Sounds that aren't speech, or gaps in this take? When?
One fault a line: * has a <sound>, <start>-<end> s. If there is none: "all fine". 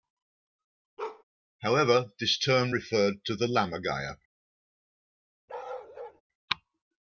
* has a bark, 1.0-1.2 s
* has a bark, 5.5-6.2 s